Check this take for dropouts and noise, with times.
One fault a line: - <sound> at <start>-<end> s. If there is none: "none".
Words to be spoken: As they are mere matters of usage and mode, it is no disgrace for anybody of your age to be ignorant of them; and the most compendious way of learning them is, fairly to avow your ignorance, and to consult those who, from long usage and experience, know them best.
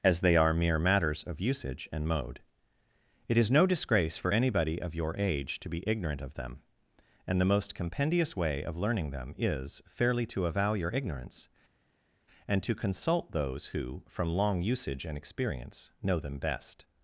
none